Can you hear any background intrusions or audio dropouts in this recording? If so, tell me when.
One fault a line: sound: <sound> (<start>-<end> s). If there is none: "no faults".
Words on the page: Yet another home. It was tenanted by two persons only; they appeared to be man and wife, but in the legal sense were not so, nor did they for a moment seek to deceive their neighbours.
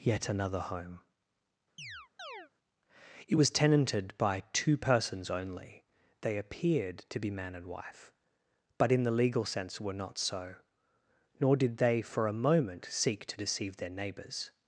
sound: chirp (1.8-2.5 s)